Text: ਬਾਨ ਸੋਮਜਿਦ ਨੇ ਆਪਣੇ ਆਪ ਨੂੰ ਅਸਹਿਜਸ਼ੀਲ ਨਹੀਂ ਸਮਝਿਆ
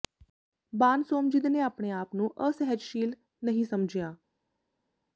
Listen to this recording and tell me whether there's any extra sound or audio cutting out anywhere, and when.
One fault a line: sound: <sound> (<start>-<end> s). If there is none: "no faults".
no faults